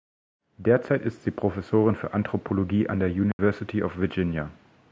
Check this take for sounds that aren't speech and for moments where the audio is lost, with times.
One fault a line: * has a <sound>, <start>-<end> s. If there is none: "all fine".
* has a dropout, 3.3-3.4 s